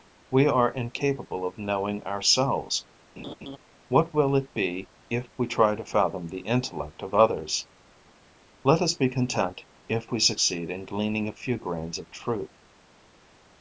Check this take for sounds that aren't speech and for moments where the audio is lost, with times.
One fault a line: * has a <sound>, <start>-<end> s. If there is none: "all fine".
* has a laugh, 3.2-3.6 s